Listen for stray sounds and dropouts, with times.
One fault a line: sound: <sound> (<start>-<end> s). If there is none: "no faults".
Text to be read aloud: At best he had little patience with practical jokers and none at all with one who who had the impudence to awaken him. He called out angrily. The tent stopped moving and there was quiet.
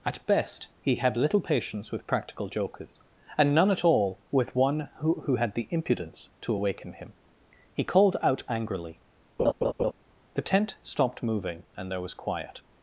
sound: laugh (9.4-9.9 s)